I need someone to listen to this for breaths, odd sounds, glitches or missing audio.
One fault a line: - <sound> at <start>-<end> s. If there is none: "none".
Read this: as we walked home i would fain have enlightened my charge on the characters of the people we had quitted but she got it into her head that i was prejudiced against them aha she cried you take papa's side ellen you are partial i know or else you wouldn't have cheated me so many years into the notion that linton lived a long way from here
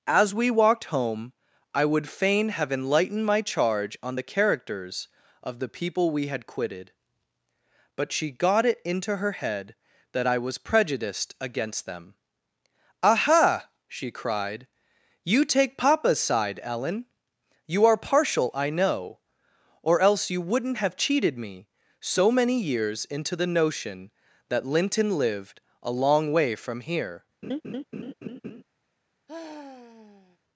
- laugh at 27.4-28.6 s
- sigh at 29.3-30.4 s